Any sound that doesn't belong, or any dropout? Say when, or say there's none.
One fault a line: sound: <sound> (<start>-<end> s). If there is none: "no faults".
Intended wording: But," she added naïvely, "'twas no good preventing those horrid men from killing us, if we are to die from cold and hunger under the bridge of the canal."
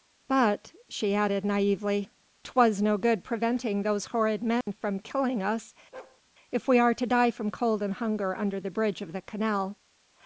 sound: dropout (4.6-4.7 s)
sound: bark (5.9-6.2 s)